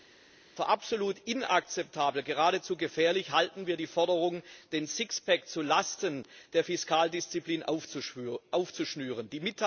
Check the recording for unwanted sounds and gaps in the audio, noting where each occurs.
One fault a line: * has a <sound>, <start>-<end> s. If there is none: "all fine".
all fine